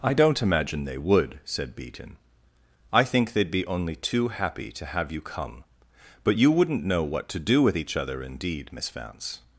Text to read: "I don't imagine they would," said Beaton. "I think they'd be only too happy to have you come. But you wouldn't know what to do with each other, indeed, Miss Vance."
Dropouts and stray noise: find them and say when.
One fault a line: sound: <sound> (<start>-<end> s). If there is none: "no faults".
no faults